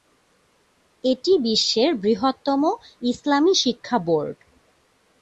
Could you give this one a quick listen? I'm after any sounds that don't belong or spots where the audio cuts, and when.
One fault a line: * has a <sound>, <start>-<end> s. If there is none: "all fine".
all fine